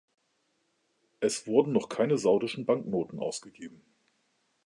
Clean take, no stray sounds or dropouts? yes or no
yes